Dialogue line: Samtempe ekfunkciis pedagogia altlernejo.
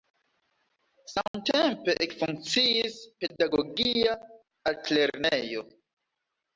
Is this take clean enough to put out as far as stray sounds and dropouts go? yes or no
no